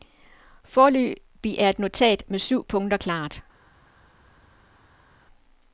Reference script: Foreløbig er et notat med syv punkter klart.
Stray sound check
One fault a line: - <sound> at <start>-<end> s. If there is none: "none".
none